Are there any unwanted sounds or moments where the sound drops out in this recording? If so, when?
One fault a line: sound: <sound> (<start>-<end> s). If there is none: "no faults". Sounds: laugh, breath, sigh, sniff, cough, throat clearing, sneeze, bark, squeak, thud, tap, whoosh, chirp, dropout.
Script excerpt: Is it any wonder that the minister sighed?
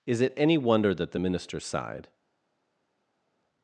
no faults